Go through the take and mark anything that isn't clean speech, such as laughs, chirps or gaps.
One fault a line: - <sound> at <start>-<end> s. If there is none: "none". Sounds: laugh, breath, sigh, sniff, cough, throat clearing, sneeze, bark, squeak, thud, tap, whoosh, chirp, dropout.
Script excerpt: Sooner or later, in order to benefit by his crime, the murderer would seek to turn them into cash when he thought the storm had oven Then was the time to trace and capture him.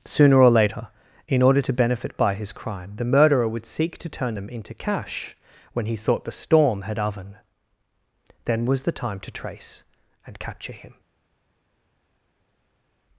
none